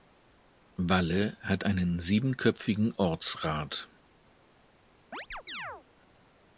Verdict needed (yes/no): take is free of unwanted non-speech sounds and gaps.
no